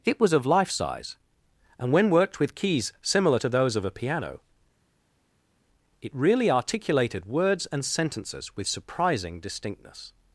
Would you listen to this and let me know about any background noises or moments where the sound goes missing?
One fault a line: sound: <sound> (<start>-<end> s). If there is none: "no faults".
no faults